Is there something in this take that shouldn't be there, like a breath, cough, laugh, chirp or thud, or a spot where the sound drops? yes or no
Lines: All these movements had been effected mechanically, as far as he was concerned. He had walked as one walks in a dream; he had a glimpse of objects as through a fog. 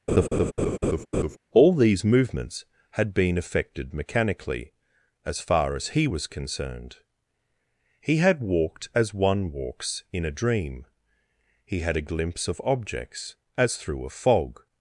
yes